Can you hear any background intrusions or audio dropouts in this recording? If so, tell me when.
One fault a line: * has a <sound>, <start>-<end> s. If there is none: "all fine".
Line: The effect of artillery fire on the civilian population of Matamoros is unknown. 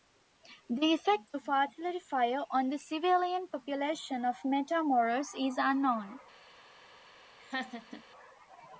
* has a laugh, 7.4-8.0 s